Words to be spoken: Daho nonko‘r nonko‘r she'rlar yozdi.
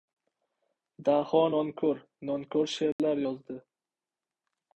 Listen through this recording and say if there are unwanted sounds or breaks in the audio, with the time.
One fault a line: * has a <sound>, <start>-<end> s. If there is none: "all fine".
* has a dropout, 2.9-3.0 s